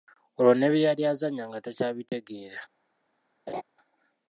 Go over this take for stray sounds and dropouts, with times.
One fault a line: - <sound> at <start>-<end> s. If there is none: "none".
- dropout at 2.1-2.1 s
- laugh at 3.5-3.6 s